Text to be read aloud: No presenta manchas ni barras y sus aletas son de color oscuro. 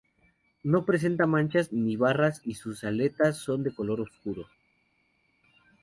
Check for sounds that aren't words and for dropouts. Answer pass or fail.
pass